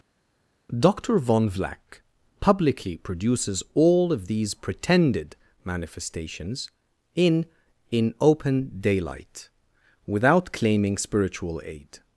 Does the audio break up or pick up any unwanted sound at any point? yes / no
no